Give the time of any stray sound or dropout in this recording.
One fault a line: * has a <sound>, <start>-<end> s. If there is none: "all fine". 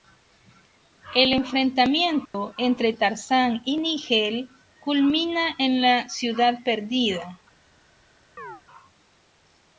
* has a dropout, 2.3-2.3 s
* has a chirp, 8.4-8.6 s